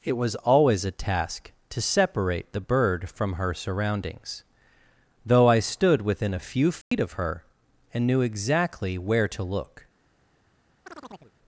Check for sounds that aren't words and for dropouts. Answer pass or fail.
fail